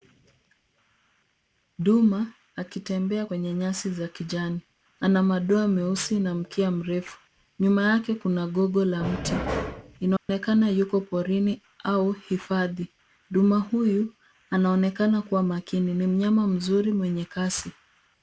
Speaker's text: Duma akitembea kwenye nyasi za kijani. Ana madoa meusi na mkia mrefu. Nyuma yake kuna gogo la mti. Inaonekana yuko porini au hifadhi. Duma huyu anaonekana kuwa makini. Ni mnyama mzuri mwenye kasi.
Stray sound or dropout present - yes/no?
yes